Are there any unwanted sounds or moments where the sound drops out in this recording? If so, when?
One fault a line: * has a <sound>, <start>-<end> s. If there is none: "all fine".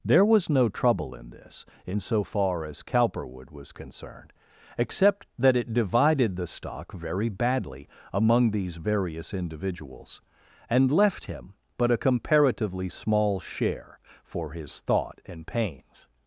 all fine